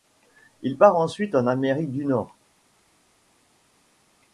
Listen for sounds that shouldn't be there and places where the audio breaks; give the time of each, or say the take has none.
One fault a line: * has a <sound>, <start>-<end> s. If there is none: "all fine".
all fine